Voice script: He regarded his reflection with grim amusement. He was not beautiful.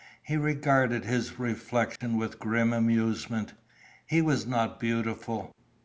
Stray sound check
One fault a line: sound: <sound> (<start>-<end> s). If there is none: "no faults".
sound: dropout (2.0-2.0 s)